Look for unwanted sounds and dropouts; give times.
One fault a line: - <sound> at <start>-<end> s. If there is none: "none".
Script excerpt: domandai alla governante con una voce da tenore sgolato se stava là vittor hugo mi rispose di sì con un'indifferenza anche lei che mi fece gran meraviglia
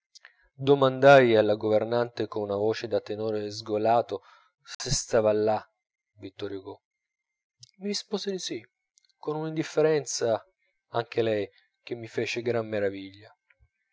- dropout at 4.7-4.8 s